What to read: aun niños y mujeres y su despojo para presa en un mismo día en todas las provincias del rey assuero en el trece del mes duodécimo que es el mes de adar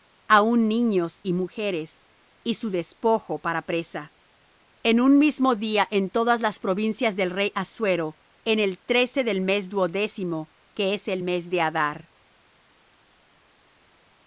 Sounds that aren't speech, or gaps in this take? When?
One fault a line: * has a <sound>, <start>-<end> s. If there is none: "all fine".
all fine